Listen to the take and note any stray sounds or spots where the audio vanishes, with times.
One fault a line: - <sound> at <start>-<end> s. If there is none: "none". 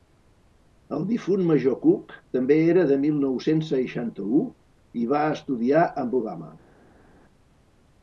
none